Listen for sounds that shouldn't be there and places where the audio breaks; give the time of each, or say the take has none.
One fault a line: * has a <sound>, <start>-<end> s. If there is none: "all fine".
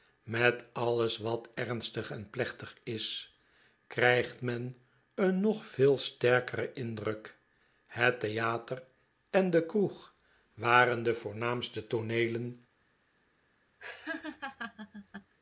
* has a laugh, 13.8-15.3 s